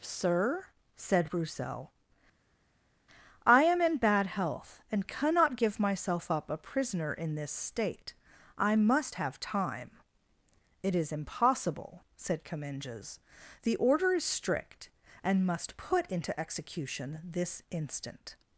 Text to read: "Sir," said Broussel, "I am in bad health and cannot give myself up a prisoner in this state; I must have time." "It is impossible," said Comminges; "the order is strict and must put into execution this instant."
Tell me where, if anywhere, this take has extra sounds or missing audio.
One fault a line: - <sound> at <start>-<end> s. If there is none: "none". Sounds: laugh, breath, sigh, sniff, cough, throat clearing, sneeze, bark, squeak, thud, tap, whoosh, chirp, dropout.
none